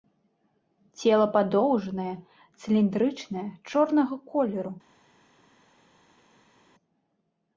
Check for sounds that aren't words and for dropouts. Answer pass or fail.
pass